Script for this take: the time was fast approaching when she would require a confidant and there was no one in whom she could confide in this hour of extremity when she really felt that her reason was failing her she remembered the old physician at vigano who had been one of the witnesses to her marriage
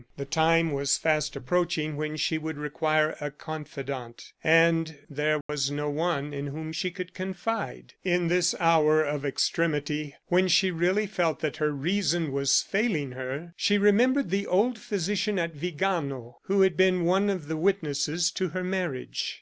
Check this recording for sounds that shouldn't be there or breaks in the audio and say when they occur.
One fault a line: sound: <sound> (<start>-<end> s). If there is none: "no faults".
sound: dropout (5.4-5.5 s)